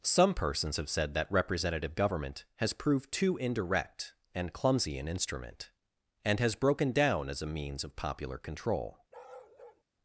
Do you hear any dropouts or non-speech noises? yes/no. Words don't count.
yes